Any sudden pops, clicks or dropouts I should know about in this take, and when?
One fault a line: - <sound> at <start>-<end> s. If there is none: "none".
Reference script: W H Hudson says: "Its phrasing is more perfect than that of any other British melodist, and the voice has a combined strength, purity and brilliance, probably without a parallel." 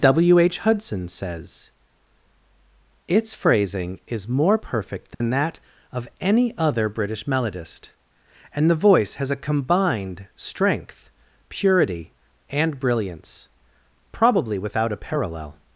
- dropout at 5.1-5.2 s